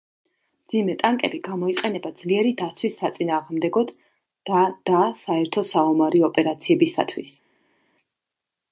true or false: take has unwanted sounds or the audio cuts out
false